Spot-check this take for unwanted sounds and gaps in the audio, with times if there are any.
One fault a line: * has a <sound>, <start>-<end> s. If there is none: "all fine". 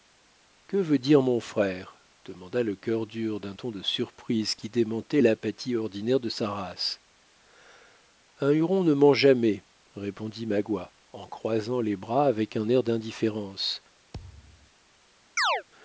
* has a thud, 14.1-14.7 s
* has a chirp, 15.4-15.6 s